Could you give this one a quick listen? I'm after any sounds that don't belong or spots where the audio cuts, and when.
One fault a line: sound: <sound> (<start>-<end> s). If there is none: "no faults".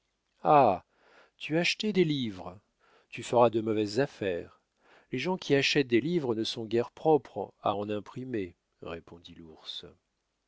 no faults